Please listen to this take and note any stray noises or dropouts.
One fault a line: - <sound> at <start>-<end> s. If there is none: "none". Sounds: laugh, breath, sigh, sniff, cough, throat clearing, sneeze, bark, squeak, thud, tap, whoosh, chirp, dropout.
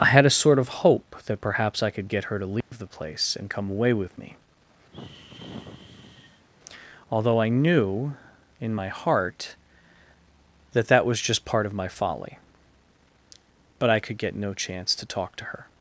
- dropout at 2.6-2.7 s
- sigh at 4.9-6.5 s